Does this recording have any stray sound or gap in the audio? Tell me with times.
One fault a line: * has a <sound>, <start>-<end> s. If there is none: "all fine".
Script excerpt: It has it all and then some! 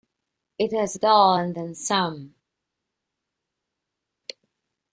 all fine